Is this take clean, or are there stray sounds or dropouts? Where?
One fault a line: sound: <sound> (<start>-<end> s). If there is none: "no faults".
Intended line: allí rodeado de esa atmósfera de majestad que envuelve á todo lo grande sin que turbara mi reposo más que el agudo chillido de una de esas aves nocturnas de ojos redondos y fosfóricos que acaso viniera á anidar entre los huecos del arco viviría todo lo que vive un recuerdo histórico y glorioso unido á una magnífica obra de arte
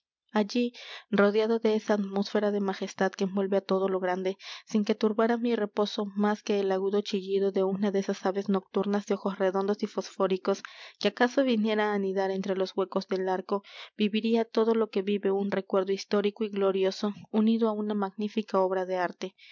no faults